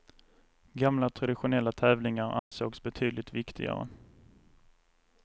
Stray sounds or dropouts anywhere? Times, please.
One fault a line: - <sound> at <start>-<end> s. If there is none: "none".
- dropout at 2.4-2.5 s